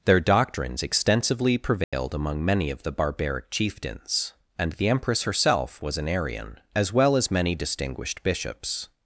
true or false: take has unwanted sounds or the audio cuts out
true